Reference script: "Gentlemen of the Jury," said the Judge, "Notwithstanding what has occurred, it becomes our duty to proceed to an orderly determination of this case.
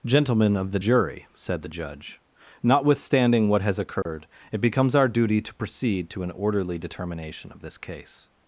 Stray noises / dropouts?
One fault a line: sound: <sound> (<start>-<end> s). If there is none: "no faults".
sound: dropout (4.0-4.1 s)